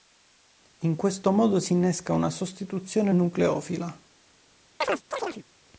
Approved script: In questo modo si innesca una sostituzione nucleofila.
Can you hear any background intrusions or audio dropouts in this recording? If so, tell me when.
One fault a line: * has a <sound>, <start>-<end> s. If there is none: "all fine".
* has a chirp, 4.8-5.4 s